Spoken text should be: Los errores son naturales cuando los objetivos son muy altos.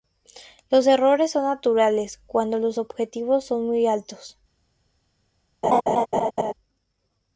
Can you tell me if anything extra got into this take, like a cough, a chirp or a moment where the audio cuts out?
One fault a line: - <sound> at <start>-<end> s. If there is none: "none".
- laugh at 5.6-6.5 s